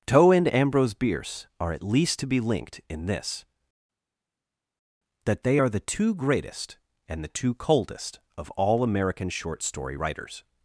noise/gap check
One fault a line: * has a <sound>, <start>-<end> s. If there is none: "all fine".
all fine